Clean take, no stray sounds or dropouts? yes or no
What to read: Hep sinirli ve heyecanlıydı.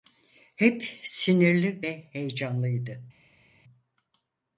yes